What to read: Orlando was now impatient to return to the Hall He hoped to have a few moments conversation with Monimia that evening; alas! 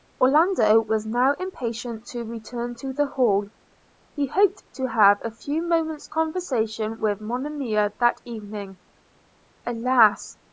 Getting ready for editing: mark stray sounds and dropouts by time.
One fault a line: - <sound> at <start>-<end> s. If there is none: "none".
none